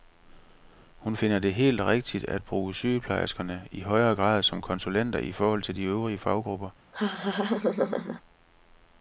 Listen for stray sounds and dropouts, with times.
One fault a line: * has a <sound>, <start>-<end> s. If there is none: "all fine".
* has a laugh, 6.9-8.2 s